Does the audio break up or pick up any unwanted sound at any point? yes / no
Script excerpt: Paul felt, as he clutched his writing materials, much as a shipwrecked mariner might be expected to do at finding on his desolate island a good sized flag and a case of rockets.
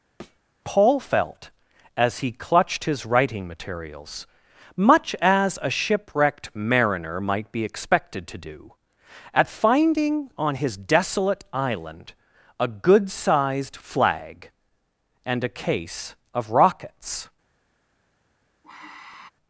yes